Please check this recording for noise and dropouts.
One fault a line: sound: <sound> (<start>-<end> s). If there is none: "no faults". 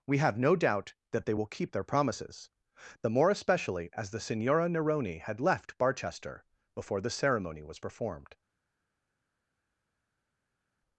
no faults